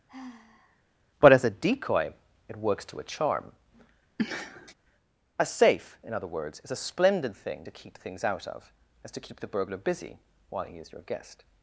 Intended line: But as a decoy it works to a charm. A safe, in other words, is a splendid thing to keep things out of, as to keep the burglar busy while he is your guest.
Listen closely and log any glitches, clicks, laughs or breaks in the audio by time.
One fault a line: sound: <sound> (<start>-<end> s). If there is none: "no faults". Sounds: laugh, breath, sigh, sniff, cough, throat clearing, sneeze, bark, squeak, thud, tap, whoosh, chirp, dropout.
sound: sigh (0.1-0.8 s)
sound: sniff (4.2-4.7 s)